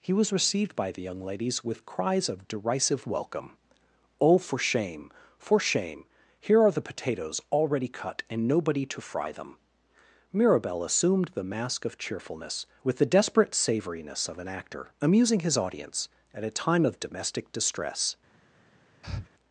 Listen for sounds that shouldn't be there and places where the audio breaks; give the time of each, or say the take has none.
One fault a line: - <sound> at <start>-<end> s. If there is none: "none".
- breath at 19.0-19.3 s